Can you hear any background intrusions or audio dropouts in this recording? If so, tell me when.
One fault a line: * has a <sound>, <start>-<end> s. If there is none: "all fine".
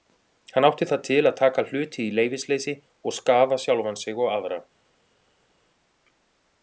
all fine